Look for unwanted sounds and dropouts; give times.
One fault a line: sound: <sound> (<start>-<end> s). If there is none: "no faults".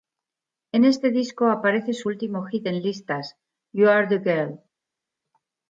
no faults